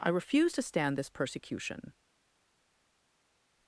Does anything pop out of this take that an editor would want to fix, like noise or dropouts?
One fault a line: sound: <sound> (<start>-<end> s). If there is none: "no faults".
no faults